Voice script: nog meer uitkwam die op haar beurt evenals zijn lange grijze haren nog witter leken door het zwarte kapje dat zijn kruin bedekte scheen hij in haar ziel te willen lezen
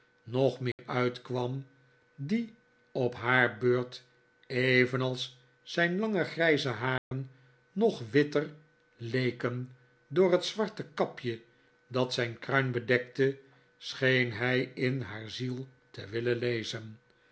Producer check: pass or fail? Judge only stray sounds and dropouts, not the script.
fail